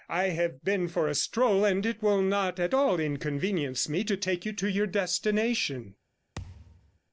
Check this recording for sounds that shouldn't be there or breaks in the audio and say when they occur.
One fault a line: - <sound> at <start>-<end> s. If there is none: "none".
- thud at 6.4-7.0 s